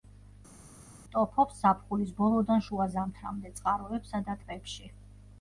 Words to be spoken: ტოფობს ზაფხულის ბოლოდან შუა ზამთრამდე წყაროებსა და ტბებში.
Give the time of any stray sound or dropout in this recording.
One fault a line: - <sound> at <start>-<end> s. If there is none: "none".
none